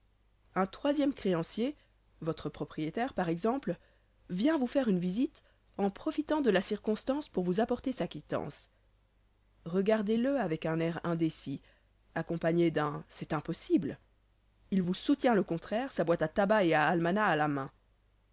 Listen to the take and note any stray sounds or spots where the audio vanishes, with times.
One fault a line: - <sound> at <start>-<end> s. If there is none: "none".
none